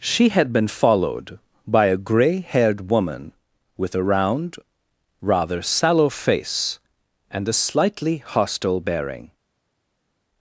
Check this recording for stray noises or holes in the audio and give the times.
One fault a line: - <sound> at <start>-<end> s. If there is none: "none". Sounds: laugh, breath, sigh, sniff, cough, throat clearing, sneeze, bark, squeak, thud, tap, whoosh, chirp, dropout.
none